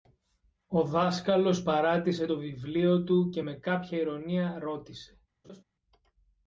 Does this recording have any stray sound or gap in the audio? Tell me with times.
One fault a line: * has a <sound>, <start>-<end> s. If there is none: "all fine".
* has a laugh, 5.4-5.6 s